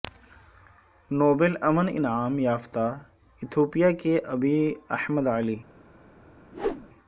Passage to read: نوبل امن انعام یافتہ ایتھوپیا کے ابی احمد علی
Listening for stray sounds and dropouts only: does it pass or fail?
fail